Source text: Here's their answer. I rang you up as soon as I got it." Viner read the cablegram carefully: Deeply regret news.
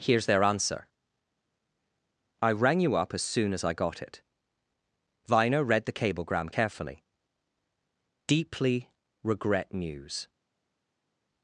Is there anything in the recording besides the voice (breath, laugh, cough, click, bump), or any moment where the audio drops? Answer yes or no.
no